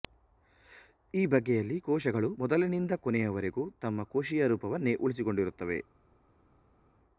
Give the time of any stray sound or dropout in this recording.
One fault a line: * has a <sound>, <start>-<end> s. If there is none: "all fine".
all fine